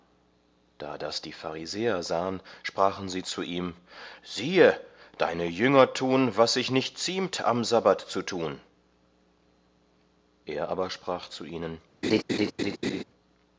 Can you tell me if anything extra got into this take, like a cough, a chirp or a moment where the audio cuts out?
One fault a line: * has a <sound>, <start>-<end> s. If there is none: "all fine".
* has a laugh, 12.0-13.0 s